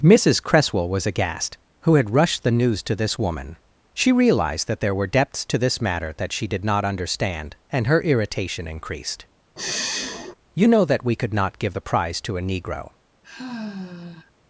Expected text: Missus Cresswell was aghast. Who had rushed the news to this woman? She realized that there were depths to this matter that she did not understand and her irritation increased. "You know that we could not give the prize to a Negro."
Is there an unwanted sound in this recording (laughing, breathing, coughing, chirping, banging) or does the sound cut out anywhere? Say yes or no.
yes